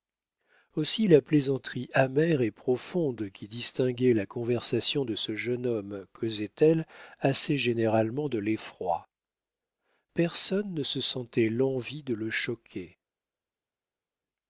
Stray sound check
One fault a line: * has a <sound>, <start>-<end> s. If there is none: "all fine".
all fine